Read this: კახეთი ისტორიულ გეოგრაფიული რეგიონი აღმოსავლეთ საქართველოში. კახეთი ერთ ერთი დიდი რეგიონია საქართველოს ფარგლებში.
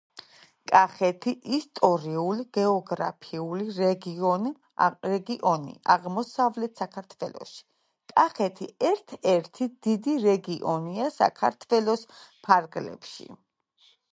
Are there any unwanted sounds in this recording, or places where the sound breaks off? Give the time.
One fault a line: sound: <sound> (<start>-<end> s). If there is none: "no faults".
no faults